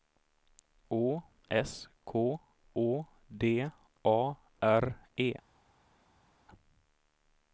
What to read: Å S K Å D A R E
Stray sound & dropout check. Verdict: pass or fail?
pass